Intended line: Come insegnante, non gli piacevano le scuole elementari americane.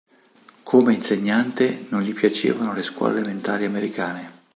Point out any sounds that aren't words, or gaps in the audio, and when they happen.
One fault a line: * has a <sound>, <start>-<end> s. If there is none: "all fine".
all fine